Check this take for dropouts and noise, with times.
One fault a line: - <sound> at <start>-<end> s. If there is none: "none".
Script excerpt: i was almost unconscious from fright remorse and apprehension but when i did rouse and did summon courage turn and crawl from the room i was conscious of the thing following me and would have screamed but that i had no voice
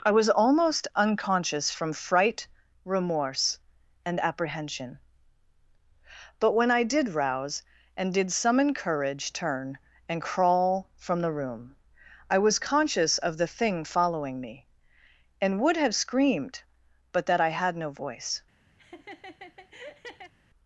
- laugh at 18.8-20.3 s